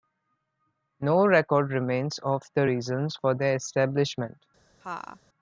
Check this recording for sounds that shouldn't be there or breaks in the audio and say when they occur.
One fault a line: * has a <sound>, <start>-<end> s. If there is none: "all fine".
* has a laugh, 4.8-5.2 s